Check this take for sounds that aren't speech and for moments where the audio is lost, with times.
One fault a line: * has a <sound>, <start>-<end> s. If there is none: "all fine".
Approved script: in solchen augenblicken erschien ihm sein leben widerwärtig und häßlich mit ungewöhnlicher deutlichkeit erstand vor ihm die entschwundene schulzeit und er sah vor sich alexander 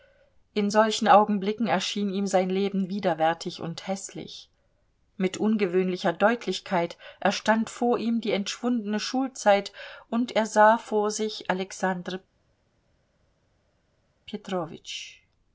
all fine